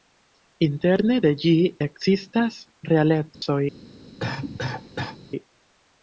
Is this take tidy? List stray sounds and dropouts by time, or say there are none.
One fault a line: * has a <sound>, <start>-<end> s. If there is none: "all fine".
* has a dropout, 3.3-3.4 s
* has a cough, 4.2-5.2 s